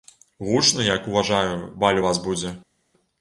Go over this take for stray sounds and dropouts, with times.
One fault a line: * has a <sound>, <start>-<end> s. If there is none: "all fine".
all fine